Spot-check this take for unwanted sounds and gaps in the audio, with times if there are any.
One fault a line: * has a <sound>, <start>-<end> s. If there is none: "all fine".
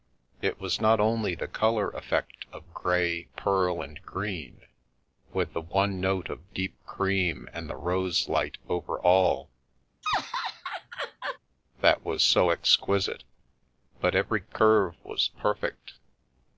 * has a laugh, 10.0-11.4 s